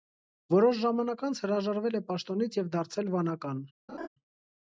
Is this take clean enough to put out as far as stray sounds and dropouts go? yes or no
no